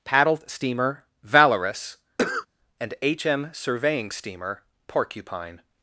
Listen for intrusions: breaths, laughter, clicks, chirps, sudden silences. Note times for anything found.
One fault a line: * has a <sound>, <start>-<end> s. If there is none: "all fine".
* has a cough, 2.2-2.5 s